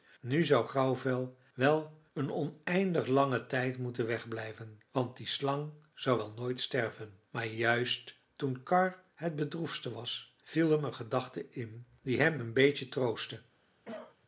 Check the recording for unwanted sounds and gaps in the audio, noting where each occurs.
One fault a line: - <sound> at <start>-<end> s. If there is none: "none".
- cough at 13.9-14.2 s